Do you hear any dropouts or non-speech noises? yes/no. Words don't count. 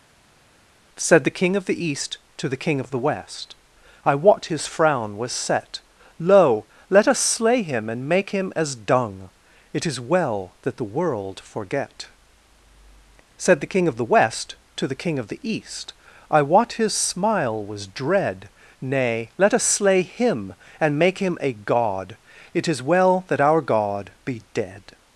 no